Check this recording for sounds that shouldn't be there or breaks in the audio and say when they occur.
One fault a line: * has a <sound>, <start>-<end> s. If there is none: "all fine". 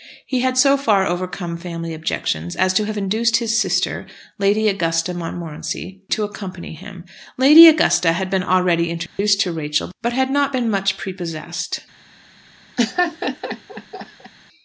* has a dropout, 9.1-9.2 s
* has a laugh, 12.8-14.3 s